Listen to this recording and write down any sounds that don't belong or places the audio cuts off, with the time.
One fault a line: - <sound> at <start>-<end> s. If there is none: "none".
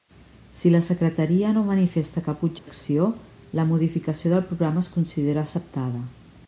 - dropout at 2.6-2.7 s